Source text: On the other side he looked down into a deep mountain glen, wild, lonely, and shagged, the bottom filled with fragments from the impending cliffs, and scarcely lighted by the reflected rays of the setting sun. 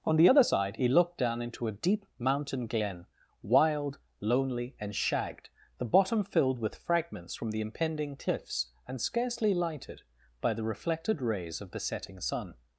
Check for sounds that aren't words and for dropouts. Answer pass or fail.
pass